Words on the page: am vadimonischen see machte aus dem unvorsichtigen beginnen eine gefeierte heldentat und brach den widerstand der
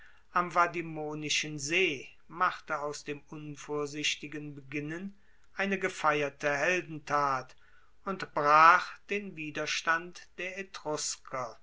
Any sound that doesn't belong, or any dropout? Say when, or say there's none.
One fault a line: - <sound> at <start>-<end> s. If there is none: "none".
none